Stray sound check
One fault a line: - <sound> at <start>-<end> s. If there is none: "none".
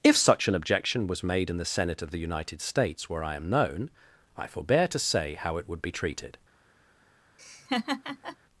- laugh at 7.4-8.4 s